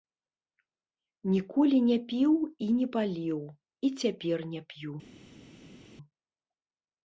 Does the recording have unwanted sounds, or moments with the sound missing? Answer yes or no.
no